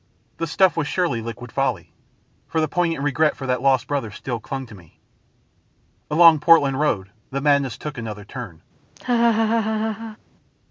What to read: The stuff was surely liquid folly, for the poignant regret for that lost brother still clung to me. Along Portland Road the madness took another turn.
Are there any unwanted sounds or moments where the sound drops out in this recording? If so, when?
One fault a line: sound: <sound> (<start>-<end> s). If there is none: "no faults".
sound: laugh (9.0-10.2 s)